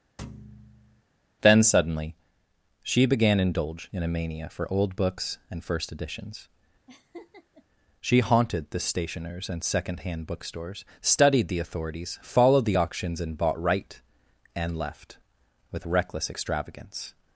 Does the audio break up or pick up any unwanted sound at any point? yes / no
yes